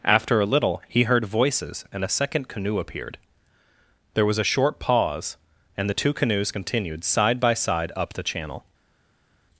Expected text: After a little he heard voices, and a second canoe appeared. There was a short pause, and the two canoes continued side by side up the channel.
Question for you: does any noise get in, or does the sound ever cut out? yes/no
no